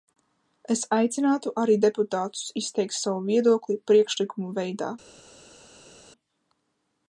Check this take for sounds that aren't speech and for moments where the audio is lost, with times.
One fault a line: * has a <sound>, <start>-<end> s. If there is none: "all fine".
all fine